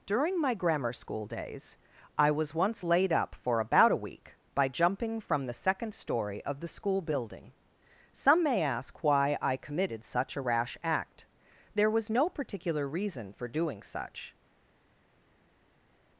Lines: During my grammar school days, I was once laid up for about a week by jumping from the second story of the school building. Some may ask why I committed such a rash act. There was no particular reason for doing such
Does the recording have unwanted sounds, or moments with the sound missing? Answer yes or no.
no